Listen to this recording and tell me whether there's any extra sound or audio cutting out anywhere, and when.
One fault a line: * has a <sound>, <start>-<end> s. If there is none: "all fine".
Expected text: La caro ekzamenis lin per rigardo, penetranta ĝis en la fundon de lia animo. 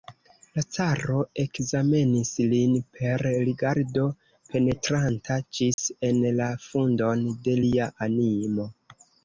* has a dropout, 5.7-5.8 s